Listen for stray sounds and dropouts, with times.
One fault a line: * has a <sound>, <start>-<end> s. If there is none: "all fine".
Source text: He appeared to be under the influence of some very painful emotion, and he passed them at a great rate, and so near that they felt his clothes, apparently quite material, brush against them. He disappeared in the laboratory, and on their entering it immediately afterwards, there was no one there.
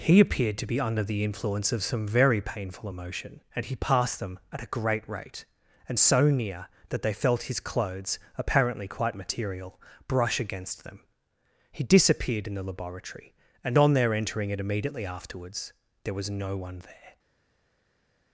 all fine